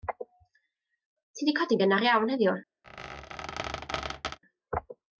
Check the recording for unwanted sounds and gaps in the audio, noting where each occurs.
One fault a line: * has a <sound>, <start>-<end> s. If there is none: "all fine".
* has a squeak, 2.8-4.4 s